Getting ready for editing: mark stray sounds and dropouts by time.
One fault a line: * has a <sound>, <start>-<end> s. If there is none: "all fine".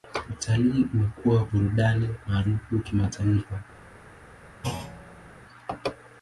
* has a thud, 4.6-5.3 s